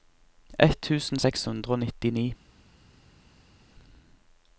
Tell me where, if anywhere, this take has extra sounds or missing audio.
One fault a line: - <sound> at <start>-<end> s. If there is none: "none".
none